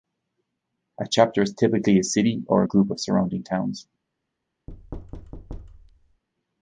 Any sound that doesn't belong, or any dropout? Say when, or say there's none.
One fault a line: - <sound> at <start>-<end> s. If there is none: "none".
- thud at 4.7-6.2 s